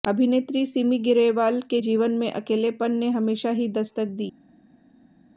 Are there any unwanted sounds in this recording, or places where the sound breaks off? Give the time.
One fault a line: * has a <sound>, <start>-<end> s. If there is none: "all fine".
all fine